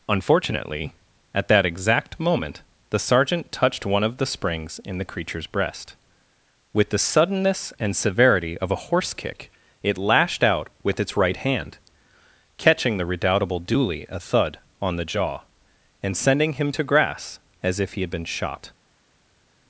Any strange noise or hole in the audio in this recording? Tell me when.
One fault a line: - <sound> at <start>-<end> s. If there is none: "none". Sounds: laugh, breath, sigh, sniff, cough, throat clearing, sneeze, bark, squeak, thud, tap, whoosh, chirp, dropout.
none